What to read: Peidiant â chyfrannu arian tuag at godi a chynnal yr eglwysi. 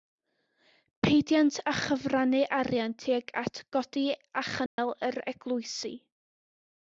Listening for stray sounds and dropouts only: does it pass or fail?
fail